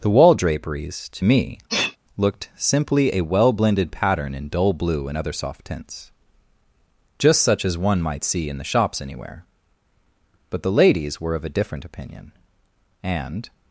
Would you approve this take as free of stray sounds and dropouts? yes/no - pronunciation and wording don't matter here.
no